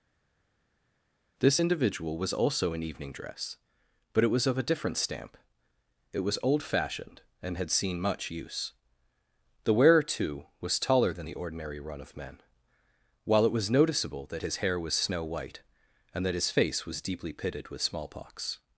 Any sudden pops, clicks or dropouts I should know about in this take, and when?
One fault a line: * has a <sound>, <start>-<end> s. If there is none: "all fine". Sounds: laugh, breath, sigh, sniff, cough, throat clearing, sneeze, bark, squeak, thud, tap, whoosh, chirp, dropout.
all fine